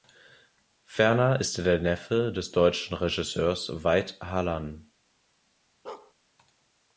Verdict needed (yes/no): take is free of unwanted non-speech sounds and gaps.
no